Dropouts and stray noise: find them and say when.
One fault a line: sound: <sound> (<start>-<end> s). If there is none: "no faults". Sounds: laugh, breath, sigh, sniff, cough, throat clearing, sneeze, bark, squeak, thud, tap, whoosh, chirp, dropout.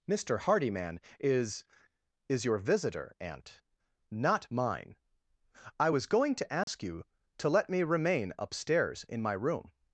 sound: dropout (6.6-6.7 s)